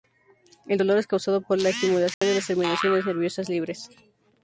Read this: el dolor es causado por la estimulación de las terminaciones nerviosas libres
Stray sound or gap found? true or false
true